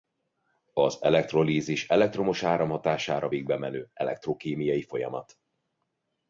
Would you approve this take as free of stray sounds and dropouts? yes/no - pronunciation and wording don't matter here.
yes